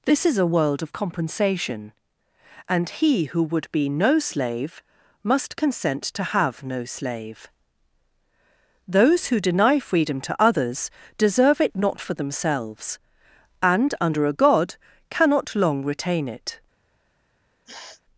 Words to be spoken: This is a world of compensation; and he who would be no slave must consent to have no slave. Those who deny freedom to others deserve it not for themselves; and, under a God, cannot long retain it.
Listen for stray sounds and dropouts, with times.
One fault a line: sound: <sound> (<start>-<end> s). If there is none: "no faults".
sound: sniff (17.7-18.0 s)